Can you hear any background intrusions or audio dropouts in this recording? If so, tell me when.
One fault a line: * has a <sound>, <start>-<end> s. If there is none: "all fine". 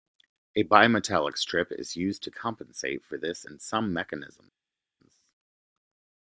all fine